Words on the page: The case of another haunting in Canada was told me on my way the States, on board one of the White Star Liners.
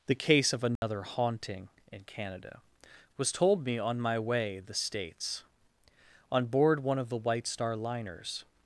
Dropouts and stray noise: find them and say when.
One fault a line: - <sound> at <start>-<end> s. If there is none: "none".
- dropout at 0.8-0.8 s